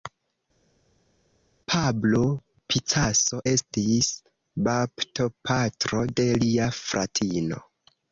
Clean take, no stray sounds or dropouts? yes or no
yes